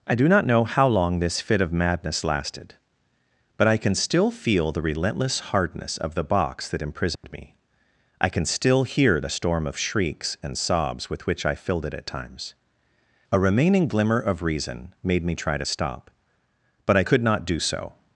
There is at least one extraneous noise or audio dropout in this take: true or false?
true